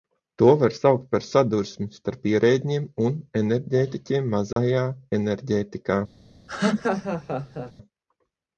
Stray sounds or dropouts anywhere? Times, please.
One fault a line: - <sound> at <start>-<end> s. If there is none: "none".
- dropout at 4.5-4.6 s
- laugh at 6.5-7.7 s